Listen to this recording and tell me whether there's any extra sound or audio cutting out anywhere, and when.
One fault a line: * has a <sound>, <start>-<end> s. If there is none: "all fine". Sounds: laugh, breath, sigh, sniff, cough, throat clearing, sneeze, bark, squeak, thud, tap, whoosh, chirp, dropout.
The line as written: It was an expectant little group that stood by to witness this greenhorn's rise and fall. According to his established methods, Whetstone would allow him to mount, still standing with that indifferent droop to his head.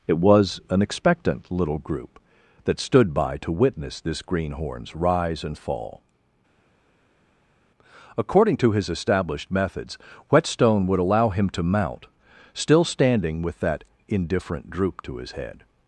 all fine